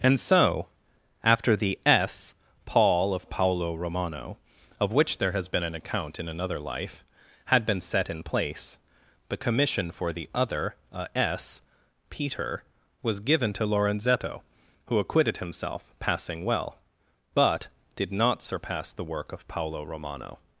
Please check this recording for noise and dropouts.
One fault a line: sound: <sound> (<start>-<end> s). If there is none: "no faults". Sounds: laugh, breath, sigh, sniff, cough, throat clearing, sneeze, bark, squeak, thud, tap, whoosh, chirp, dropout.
no faults